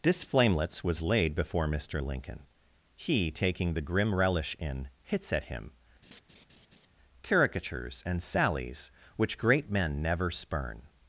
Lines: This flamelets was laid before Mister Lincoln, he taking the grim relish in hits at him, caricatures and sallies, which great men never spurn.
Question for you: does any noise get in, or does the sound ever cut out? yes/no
yes